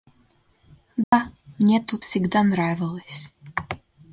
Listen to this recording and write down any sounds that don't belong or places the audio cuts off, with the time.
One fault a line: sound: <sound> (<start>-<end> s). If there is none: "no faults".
sound: dropout (1.0-1.1 s)